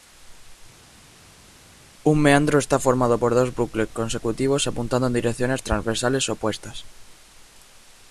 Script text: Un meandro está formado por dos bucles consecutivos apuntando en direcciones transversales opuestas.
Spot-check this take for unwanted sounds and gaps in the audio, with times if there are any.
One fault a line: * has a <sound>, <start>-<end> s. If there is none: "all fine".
all fine